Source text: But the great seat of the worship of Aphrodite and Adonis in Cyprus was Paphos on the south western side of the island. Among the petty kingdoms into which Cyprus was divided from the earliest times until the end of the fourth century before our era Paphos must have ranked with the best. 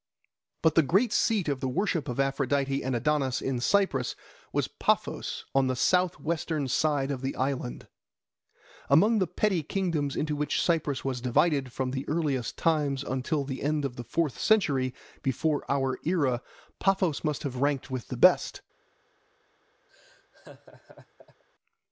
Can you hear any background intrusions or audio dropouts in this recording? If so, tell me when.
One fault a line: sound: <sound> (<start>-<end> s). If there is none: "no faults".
sound: laugh (19.9-21.4 s)